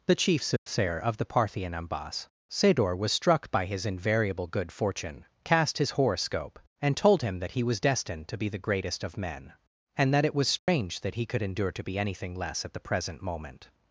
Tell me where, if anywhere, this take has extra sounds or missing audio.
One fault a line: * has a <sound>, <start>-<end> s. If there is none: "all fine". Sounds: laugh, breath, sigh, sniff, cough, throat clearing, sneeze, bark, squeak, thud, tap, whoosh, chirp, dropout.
* has a dropout, 0.6-0.7 s
* has a dropout, 10.6-10.7 s